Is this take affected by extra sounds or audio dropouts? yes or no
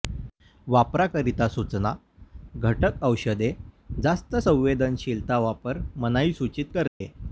yes